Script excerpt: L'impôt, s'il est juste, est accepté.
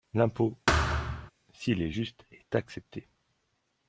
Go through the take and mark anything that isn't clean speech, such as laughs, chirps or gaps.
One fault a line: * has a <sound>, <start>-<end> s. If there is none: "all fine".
* has a thud, 0.7-1.3 s